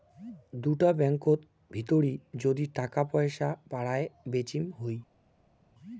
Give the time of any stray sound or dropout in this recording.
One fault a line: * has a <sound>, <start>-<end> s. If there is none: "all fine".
all fine